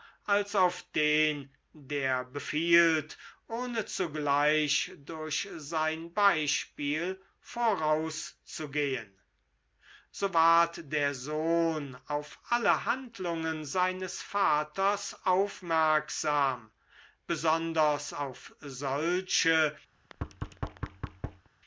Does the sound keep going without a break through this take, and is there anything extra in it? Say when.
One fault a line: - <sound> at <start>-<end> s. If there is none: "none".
- thud at 19.9-21.5 s